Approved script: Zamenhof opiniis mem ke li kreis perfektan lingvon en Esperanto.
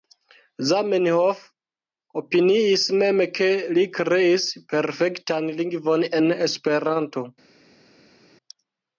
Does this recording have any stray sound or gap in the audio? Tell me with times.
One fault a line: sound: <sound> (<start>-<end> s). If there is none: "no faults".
no faults